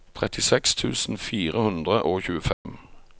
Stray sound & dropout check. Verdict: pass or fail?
fail